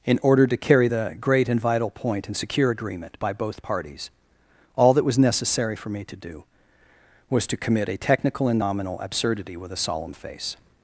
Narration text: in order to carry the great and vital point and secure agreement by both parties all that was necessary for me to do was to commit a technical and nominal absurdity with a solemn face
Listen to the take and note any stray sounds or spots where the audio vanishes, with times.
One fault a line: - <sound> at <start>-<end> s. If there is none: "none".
none